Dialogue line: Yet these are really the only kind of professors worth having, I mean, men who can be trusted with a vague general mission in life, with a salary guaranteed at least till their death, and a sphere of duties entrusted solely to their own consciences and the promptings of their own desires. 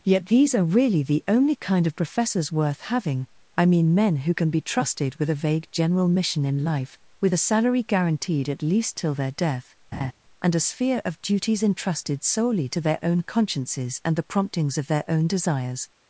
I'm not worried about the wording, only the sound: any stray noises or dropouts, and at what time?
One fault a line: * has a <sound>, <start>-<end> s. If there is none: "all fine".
* has a laugh, 9.9-10.1 s